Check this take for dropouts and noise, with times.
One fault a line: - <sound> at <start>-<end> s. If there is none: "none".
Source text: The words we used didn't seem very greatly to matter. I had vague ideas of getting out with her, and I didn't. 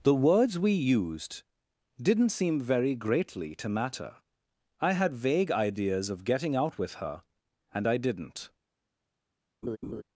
- laugh at 9.6-10.0 s